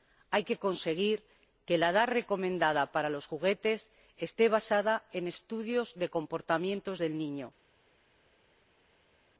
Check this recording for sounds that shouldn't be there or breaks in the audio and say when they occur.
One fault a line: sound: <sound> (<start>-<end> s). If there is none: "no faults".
no faults